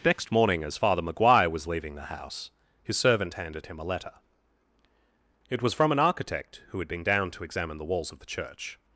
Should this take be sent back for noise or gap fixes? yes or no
no